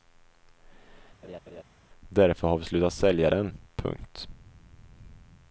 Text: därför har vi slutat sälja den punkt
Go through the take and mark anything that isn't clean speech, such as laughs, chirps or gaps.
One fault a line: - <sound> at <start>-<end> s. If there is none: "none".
- laugh at 1.2-1.6 s